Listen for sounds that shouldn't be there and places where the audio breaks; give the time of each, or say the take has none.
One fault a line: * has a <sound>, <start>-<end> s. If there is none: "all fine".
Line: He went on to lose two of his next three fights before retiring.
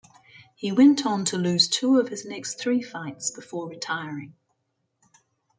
all fine